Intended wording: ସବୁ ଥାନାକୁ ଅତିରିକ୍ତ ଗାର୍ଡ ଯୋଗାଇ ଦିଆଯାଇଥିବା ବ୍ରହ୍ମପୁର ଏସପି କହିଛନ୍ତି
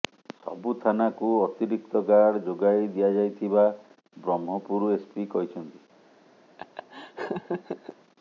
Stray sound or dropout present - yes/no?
yes